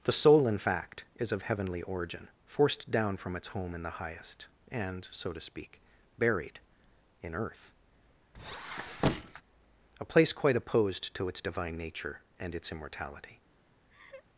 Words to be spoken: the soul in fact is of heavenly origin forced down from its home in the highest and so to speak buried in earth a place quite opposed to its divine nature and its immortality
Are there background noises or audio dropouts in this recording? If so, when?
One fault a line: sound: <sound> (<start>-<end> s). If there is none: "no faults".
sound: squeak (8.3-9.4 s)
sound: laugh (13.9-14.3 s)